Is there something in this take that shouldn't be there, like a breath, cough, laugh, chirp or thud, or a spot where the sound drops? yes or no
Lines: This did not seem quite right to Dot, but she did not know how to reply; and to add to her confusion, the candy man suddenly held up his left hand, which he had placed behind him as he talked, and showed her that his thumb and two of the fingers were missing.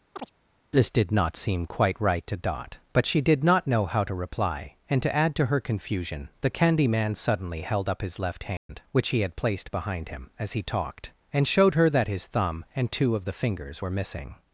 yes